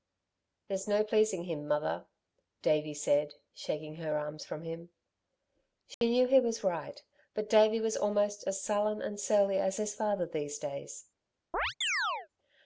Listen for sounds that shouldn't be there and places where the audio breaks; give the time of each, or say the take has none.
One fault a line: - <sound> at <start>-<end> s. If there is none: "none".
- dropout at 5.9-6.0 s
- chirp at 11.5-12.3 s